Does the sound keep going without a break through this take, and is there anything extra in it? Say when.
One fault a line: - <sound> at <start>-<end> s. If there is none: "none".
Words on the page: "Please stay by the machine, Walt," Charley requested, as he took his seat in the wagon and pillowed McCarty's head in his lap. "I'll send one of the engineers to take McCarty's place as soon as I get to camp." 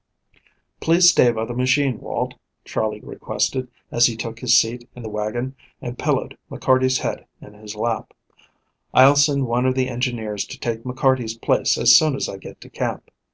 none